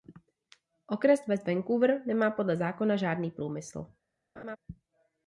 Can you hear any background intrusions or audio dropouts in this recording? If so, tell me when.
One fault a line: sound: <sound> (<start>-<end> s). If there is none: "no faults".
sound: laugh (4.4-4.6 s)